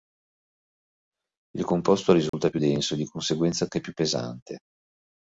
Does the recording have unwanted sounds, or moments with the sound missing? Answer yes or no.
yes